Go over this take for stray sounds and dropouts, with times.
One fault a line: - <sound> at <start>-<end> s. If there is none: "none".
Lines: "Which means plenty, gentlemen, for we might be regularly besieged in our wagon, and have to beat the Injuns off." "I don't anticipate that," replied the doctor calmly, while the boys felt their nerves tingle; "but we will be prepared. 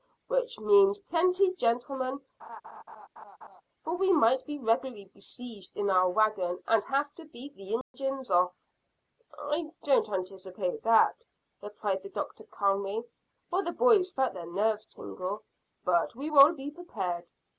- laugh at 2.4-3.6 s
- dropout at 7.8-7.9 s